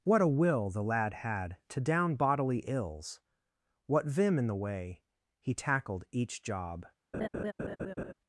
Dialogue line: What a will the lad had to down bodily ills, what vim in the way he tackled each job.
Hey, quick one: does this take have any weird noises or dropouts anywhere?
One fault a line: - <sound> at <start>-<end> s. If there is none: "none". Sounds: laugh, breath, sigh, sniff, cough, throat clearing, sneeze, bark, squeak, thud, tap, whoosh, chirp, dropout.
- laugh at 7.1-8.1 s